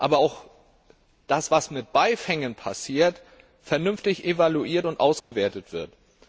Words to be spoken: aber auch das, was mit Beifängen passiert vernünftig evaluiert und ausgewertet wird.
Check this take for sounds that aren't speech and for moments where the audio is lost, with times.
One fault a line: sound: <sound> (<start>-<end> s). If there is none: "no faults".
sound: dropout (5.2-5.3 s)